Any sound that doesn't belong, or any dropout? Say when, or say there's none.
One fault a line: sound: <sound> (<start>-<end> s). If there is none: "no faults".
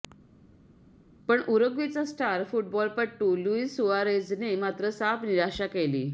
no faults